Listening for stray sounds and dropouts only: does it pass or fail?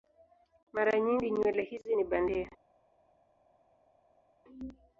pass